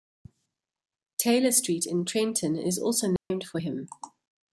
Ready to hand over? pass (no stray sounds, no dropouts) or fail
fail